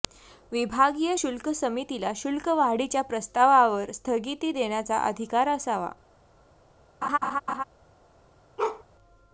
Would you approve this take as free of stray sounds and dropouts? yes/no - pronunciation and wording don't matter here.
no